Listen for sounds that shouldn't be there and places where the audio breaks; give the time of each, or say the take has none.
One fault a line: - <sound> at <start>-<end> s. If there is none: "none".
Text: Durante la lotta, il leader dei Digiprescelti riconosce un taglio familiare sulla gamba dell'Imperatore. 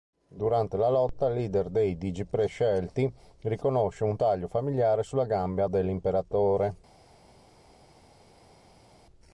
none